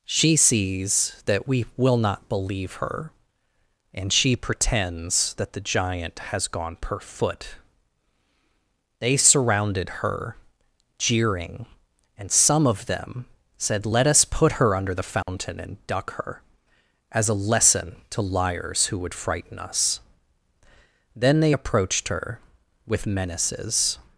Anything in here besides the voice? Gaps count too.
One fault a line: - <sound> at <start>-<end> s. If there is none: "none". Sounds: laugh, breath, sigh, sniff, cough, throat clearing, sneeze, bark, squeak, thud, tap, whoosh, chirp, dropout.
- dropout at 15.2-15.3 s